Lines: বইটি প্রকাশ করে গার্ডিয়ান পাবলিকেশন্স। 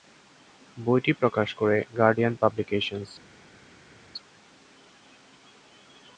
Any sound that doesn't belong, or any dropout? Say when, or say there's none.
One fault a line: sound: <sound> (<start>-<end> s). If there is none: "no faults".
no faults